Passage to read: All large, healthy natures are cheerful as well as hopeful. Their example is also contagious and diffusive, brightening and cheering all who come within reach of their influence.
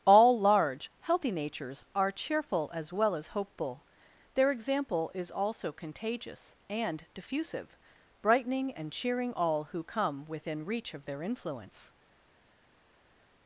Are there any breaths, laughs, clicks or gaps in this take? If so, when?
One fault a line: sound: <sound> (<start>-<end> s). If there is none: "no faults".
no faults